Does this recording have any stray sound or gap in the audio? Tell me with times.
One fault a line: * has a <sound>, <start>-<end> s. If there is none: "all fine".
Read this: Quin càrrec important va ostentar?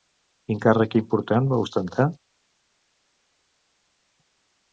all fine